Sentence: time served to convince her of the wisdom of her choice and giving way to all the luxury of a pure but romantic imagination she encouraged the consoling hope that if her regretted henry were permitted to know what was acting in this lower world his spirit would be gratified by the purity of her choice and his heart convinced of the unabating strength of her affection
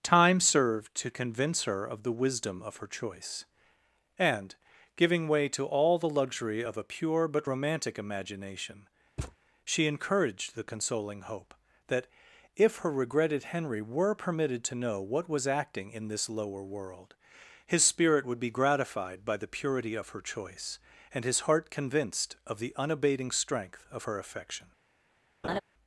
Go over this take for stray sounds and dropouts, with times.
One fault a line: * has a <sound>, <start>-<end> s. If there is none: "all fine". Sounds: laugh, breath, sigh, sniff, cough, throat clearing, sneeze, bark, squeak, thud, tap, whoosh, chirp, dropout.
* has a thud, 9.2-9.4 s
* has a laugh, 25.4-25.6 s